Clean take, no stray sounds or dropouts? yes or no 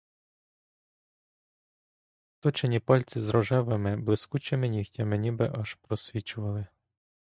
yes